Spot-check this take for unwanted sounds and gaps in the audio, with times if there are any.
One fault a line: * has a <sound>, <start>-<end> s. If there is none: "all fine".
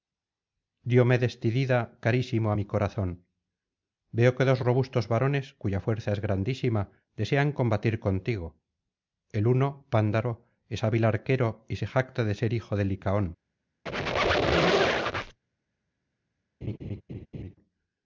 * has a squeak, 13.9-15.4 s
* has a laugh, 16.6-17.6 s